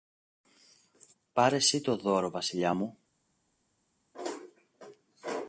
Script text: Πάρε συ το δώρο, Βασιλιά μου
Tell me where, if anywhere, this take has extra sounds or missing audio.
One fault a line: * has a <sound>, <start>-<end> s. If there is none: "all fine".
all fine